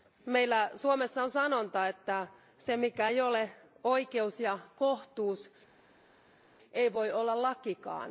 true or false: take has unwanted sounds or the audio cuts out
false